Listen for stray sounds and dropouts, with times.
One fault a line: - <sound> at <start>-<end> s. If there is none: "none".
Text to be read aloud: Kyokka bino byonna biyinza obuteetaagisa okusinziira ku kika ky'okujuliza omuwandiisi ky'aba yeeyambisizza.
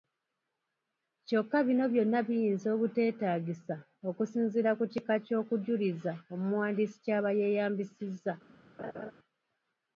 - laugh at 8.8-9.1 s